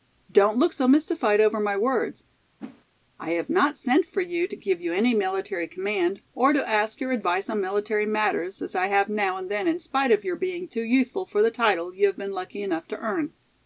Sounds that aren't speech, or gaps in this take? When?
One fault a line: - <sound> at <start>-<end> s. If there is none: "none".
- whoosh at 2.6-2.8 s